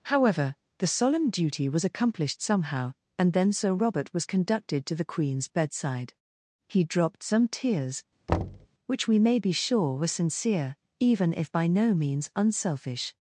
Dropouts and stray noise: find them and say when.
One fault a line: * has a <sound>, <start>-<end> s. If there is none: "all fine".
* has a thud, 8.3-8.7 s